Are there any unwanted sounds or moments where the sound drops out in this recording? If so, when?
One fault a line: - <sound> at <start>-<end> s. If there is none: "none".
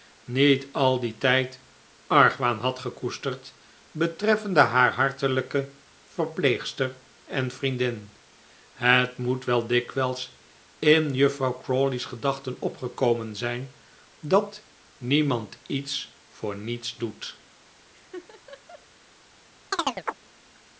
- laugh at 17.9-18.9 s
- chirp at 19.7-20.2 s